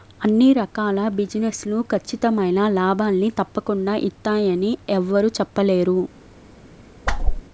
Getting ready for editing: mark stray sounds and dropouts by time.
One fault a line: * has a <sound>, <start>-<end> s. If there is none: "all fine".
* has a whoosh, 7.1-7.4 s